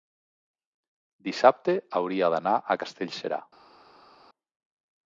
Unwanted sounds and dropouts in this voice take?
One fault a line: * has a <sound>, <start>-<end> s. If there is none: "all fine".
all fine